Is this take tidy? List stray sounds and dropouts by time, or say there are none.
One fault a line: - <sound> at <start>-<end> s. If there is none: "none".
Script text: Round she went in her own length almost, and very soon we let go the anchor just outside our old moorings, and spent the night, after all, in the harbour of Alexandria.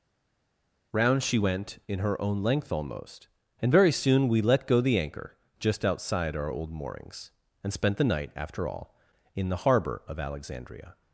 none